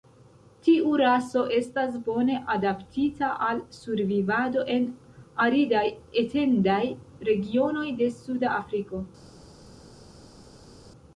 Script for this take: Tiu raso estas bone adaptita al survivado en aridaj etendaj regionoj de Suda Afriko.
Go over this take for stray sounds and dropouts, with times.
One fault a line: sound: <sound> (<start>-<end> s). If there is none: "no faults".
no faults